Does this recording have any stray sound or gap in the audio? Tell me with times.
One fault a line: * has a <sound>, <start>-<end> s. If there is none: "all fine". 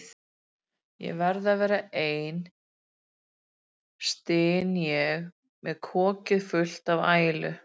all fine